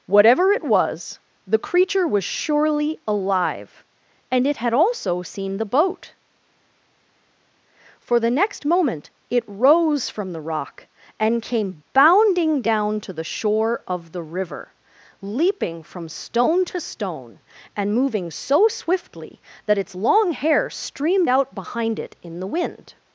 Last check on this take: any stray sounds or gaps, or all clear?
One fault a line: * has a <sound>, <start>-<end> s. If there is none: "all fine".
all fine